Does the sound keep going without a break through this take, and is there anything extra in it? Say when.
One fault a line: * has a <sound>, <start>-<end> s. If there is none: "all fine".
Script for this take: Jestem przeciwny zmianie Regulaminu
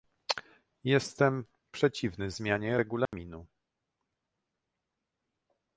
* has a dropout, 3.1-3.1 s